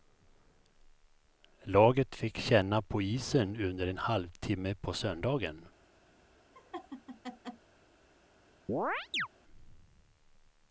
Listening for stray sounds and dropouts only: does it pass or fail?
fail